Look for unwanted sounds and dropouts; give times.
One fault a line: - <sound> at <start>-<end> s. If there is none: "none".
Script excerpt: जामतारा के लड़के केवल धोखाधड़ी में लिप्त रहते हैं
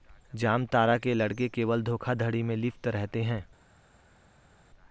none